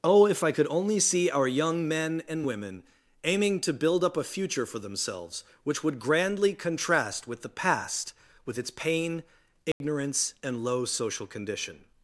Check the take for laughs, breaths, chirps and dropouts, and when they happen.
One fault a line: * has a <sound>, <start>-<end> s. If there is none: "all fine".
* has a dropout, 9.7-9.8 s